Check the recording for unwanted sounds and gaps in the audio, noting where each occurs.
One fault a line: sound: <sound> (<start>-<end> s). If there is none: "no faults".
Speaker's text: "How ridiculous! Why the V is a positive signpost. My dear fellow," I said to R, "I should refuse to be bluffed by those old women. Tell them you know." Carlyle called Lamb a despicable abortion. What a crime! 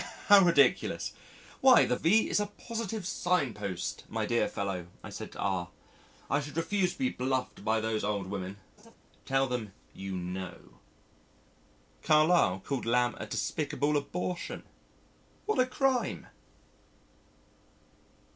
sound: laugh (8.8-9.0 s)